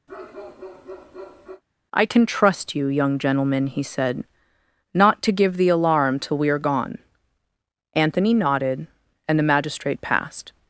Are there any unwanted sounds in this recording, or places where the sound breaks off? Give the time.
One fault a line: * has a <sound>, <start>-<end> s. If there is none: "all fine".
* has a bark, 0.1-1.6 s